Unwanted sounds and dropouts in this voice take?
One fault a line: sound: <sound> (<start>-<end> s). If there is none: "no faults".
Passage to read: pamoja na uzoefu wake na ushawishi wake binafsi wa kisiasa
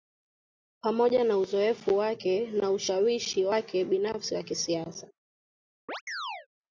sound: chirp (5.9-6.5 s)